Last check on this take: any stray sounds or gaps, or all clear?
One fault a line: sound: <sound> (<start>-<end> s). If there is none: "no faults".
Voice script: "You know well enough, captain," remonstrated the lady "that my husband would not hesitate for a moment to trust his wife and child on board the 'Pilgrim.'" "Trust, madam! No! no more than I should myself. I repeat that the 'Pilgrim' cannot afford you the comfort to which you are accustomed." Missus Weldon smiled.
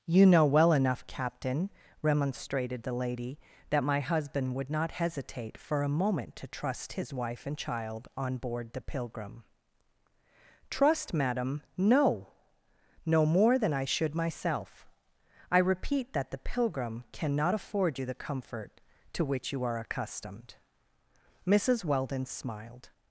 no faults